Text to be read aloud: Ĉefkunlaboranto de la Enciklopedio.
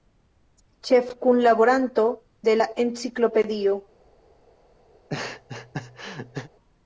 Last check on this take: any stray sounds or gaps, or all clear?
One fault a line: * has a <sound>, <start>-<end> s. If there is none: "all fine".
* has a laugh, 4.9-6.5 s